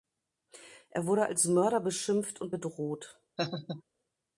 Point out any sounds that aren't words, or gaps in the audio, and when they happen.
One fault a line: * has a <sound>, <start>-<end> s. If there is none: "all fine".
* has a laugh, 3.4-3.8 s